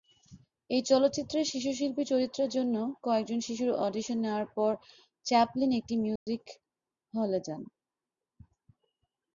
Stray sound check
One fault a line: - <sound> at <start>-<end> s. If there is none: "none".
- dropout at 6.2-6.3 s